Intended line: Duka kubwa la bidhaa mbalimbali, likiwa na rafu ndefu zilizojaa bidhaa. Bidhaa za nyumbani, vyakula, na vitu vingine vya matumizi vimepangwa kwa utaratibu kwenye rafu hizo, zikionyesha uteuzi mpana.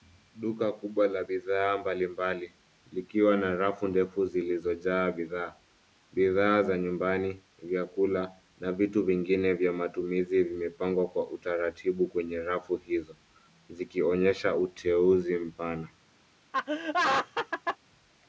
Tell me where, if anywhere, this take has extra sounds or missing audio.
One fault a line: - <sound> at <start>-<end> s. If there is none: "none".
- laugh at 16.5-17.8 s